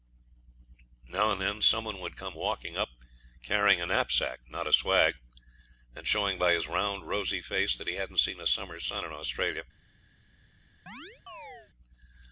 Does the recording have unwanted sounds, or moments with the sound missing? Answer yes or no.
yes